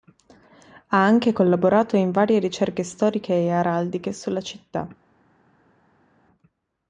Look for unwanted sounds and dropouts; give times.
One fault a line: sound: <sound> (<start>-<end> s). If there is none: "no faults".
no faults